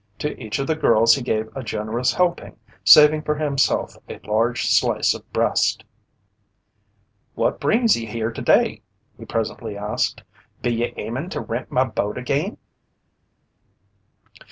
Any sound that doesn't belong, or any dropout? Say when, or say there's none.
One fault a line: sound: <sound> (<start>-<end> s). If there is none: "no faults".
no faults